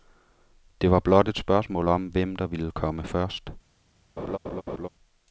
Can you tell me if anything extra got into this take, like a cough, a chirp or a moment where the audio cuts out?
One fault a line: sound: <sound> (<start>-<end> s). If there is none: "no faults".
sound: laugh (4.2-4.9 s)